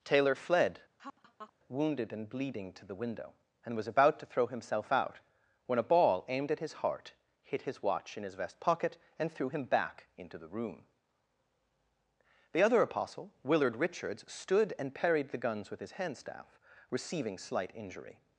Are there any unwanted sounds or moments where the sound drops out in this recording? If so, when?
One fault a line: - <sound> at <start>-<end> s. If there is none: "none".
- laugh at 1.0-1.5 s